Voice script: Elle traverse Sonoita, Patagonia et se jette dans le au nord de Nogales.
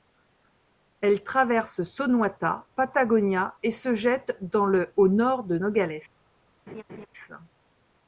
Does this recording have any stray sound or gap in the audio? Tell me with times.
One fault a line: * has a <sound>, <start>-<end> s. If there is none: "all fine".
* has a laugh, 6.7-7.1 s